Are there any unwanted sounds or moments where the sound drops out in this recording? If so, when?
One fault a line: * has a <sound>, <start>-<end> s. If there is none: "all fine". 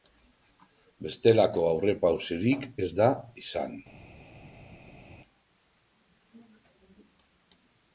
all fine